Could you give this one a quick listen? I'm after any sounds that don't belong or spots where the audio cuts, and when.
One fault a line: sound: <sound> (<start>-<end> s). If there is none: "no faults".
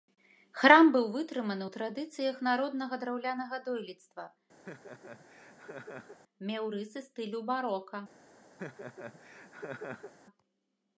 sound: laugh (4.7-6.2 s)
sound: laugh (8.6-10.1 s)